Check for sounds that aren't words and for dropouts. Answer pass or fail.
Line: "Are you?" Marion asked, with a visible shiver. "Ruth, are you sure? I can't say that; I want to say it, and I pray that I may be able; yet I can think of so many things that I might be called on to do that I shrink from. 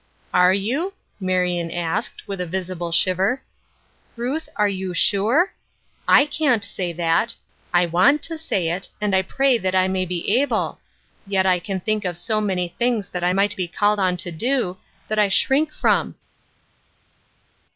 pass